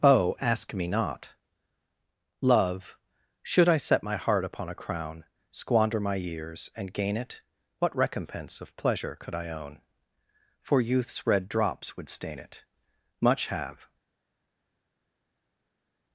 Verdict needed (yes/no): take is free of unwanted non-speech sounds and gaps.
yes